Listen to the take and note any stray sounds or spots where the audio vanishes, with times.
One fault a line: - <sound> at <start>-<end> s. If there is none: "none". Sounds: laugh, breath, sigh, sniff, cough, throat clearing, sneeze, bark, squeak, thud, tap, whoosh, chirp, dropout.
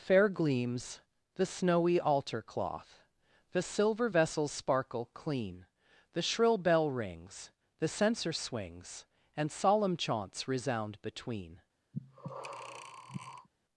- breath at 11.9-13.5 s